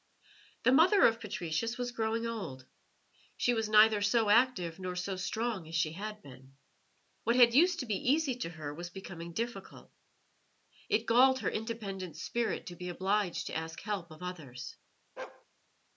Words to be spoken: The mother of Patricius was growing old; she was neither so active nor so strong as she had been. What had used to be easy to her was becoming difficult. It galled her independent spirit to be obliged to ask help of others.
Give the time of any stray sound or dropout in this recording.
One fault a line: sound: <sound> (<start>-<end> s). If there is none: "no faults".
sound: bark (15.2-15.5 s)